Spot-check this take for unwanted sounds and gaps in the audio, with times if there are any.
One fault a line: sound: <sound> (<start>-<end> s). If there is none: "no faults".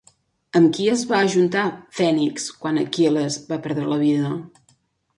no faults